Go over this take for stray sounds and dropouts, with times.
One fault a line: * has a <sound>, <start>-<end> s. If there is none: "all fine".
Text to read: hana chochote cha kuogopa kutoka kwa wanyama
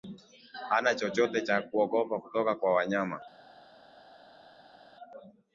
all fine